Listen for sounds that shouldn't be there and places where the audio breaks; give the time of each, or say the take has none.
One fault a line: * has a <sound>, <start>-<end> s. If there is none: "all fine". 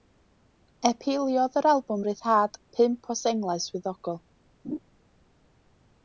* has a laugh, 4.6-4.8 s